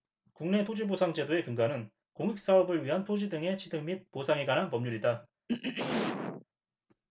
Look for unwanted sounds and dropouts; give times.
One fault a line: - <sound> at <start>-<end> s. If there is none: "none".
- throat clearing at 5.5-6.4 s